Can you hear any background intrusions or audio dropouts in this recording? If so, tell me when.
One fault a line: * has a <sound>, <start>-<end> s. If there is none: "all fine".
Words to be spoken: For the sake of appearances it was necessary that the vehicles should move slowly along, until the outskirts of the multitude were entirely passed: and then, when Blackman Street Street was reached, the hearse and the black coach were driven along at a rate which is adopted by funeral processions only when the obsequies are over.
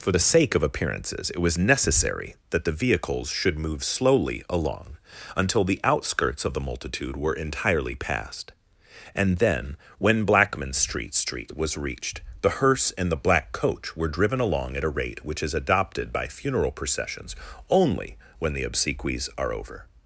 all fine